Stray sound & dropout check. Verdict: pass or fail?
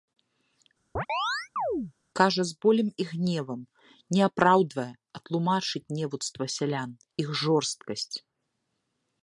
fail